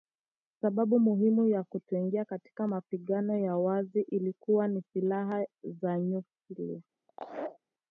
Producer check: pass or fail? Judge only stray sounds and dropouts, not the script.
fail